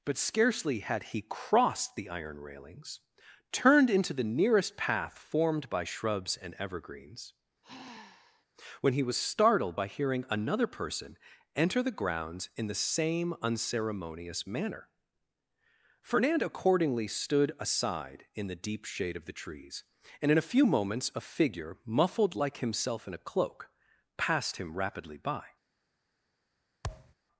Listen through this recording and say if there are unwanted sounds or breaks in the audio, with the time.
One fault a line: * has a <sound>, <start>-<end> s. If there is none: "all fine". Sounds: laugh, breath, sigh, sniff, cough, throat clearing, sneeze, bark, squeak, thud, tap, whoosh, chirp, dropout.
* has a sigh, 7.6-8.5 s
* has a thud, 26.8-27.1 s